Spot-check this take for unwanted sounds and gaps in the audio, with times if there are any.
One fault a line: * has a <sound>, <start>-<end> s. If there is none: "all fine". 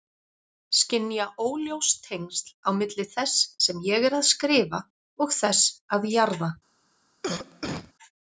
* has a cough, 7.2-7.9 s